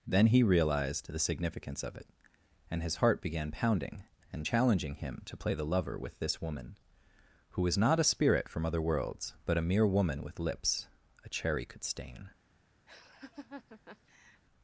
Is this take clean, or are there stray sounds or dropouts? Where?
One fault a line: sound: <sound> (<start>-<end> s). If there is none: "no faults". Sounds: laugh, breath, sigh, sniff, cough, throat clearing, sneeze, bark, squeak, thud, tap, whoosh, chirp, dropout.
sound: laugh (12.9-14.4 s)